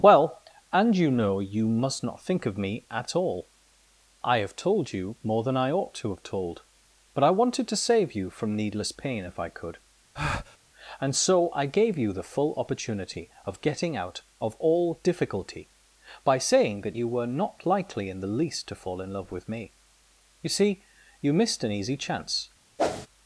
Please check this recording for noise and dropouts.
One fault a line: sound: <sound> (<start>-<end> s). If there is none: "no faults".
sound: breath (10.1-10.6 s)
sound: whoosh (22.8-23.1 s)